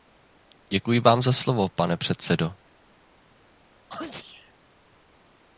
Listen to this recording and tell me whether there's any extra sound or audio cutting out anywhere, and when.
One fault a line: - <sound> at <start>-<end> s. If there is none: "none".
- sneeze at 3.9-4.5 s